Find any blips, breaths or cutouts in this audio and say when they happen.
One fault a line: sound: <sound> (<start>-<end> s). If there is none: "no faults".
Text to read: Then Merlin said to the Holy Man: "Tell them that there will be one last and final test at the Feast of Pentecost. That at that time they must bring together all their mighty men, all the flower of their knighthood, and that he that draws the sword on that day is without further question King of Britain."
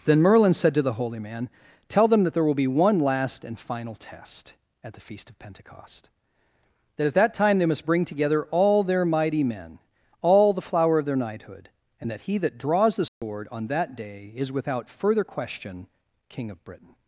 sound: dropout (13.1-13.2 s)